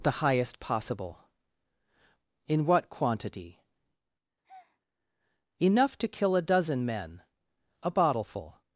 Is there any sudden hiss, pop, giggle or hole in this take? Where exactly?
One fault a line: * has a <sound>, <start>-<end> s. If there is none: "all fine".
* has a breath, 4.4-4.8 s